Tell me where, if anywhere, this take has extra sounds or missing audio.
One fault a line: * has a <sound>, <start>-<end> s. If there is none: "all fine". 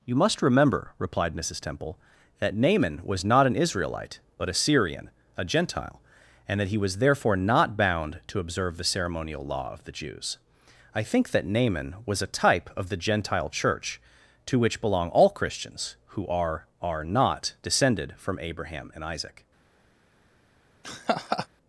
* has a laugh, 20.8-21.5 s